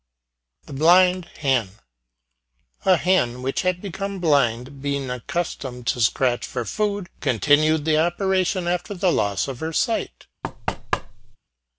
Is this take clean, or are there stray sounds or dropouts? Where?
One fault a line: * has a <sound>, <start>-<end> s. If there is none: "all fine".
* has a thud, 10.4-11.4 s